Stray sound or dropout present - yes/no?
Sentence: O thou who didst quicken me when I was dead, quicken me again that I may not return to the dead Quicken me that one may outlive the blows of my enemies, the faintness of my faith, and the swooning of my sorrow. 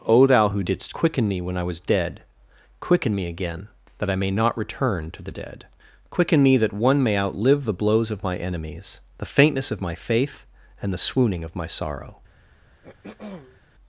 yes